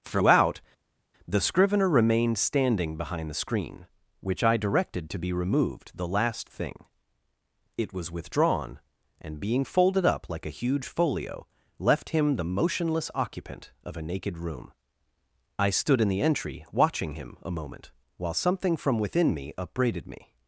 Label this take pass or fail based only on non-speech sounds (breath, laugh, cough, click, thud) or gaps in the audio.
pass